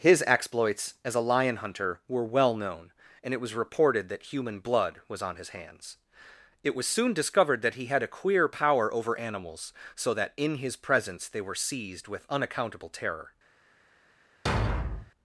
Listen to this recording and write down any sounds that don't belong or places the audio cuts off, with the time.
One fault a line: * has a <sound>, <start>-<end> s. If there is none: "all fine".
* has a thud, 14.5-15.1 s